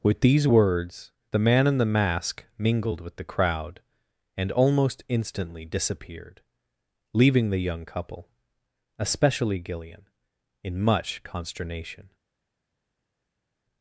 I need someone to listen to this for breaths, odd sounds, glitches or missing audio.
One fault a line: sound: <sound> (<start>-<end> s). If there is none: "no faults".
no faults